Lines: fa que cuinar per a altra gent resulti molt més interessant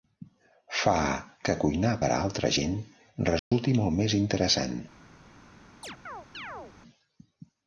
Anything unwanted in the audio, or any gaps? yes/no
yes